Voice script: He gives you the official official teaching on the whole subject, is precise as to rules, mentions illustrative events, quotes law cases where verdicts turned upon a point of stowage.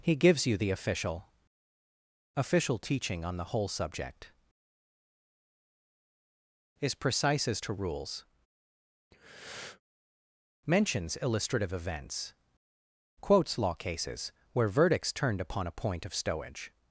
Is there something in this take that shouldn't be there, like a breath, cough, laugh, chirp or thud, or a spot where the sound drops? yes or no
yes